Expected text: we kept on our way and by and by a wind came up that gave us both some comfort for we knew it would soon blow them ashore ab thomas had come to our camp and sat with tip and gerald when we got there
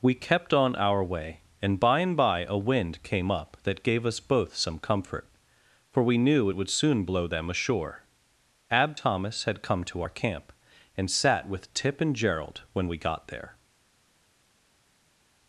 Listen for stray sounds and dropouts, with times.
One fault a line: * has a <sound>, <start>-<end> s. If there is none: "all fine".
all fine